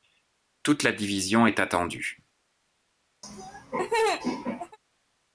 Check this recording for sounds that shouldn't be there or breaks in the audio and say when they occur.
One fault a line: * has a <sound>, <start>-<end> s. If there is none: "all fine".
* has a laugh, 3.2-4.8 s